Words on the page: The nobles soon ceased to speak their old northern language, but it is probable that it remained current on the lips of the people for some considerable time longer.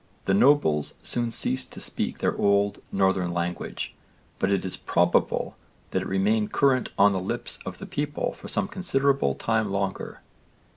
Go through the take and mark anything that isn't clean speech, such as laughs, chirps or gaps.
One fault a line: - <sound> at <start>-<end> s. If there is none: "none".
none